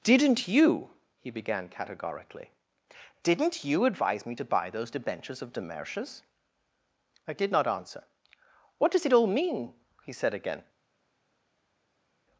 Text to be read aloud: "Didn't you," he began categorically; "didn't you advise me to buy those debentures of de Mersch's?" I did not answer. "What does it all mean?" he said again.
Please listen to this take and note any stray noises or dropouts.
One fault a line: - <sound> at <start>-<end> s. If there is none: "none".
none